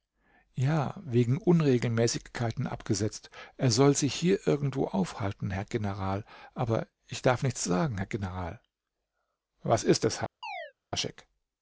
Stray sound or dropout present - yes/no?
yes